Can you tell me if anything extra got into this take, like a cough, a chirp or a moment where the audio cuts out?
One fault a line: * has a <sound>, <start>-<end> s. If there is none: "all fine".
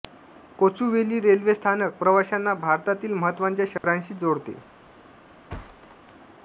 * has a dropout, 3.8-3.8 s
* has a thud, 5.5-6.0 s